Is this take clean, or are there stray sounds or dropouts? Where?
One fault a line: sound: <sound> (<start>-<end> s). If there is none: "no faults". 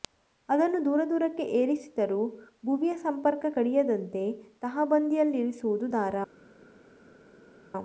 no faults